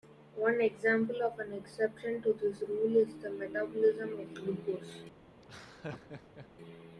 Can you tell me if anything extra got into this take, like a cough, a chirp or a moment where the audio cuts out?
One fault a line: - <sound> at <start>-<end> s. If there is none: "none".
- laugh at 5.4-6.5 s